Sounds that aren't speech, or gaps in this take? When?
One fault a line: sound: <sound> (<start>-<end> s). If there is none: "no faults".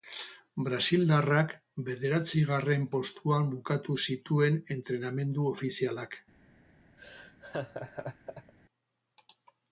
sound: laugh (7.0-8.5 s)